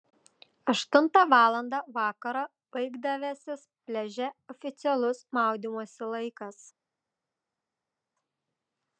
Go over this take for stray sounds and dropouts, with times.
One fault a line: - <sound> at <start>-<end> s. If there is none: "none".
none